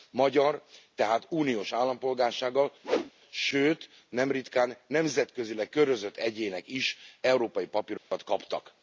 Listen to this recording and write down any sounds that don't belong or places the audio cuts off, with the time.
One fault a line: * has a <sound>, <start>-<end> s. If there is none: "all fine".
* has a whoosh, 2.8-3.1 s
* has a dropout, 8.0-8.1 s